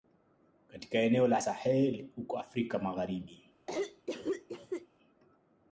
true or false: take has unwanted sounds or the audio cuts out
true